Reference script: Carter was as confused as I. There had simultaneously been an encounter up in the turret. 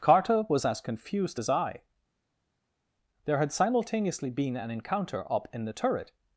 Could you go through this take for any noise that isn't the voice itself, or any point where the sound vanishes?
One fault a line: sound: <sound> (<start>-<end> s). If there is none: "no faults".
no faults